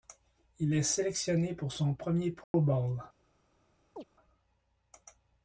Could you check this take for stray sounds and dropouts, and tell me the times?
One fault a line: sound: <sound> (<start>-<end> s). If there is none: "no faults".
sound: dropout (2.4-2.5 s)
sound: chirp (4.0-4.0 s)